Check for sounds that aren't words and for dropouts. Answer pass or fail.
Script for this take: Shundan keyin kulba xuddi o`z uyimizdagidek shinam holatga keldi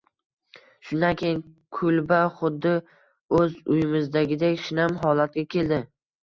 pass